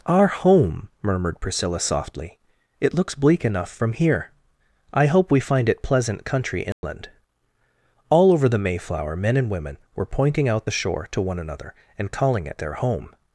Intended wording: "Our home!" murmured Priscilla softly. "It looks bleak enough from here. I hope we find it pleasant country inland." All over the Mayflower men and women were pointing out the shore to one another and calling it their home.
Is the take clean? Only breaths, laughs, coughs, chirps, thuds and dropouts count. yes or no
no